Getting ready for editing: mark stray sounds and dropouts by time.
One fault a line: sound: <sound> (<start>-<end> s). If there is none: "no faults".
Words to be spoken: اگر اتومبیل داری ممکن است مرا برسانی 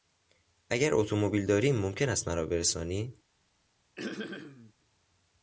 sound: throat clearing (4.0-4.7 s)